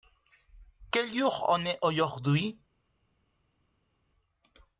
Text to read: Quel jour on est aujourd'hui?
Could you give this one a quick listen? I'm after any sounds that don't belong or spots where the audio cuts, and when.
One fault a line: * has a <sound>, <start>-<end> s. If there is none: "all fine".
all fine